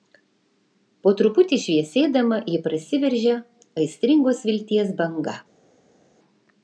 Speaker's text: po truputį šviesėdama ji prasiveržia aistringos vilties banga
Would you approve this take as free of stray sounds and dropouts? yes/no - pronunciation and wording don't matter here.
yes